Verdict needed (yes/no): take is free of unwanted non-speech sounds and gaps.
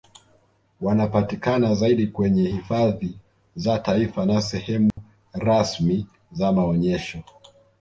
no